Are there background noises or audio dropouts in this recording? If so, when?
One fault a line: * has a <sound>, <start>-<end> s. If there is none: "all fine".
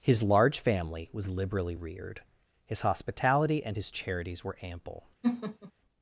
* has a laugh, 5.2-5.7 s